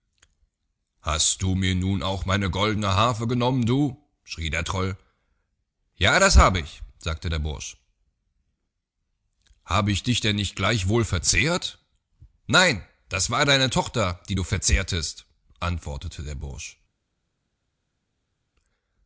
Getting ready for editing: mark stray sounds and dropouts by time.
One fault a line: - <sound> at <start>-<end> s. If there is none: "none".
none